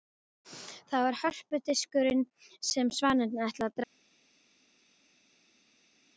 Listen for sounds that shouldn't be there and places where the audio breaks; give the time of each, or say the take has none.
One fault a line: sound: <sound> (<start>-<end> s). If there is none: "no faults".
no faults